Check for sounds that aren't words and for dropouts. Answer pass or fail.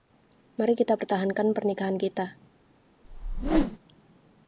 fail